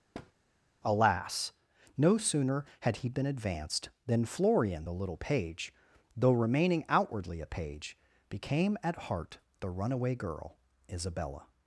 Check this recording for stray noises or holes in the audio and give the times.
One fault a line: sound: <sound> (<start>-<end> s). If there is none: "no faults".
sound: thud (0.1-0.3 s)